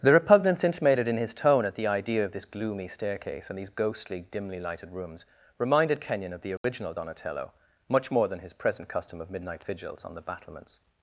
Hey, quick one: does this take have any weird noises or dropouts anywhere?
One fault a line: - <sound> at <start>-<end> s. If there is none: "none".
- dropout at 6.6-6.6 s